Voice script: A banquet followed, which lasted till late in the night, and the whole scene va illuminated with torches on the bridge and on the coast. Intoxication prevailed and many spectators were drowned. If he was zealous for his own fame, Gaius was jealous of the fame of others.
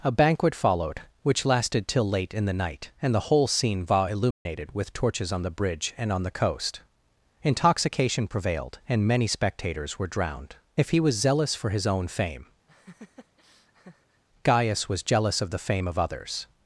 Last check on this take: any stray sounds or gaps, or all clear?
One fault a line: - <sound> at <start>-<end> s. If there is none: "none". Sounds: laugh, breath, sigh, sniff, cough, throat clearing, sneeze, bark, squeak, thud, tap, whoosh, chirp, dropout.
- dropout at 4.3-4.5 s
- laugh at 12.7-14.2 s